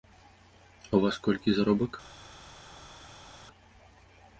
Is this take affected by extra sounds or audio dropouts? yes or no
no